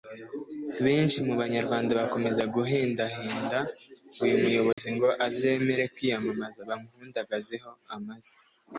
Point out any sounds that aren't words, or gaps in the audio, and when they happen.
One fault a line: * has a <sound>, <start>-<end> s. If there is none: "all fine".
* has a dropout, 4.7-4.8 s